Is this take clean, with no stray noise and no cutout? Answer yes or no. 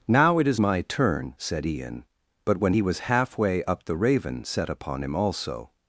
yes